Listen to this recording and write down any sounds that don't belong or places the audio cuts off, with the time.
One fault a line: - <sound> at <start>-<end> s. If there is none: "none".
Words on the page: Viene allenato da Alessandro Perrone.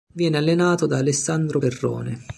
none